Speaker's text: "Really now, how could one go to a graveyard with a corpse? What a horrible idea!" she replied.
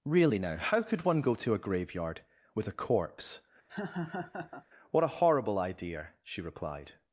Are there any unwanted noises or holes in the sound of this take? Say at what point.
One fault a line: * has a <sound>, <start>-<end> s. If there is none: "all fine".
* has a laugh, 3.7-4.7 s